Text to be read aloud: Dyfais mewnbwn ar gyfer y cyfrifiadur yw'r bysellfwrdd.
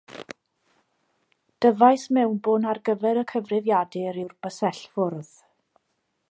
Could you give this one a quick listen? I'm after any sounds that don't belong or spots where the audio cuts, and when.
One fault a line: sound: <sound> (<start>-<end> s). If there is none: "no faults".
no faults